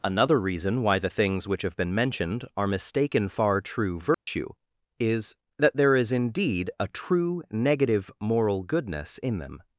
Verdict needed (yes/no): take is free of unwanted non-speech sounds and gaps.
no